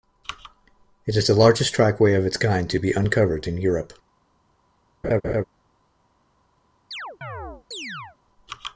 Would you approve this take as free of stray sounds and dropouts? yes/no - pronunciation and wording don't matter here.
no